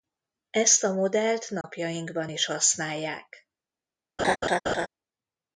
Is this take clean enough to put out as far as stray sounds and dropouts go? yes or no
no